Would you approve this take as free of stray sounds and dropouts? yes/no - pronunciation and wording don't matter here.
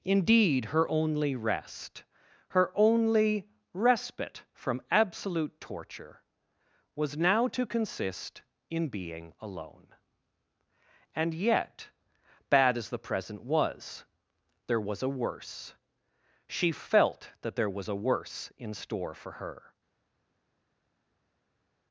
yes